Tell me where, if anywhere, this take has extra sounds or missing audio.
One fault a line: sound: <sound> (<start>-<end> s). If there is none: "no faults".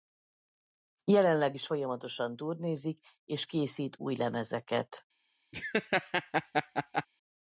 sound: laugh (5.5-7.1 s)